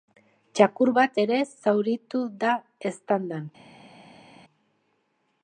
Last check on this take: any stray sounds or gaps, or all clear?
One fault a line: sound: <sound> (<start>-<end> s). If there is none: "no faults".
no faults